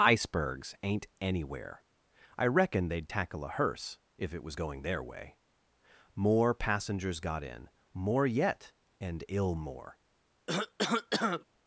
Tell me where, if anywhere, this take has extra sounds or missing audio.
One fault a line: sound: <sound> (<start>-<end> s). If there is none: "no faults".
sound: cough (10.5-11.4 s)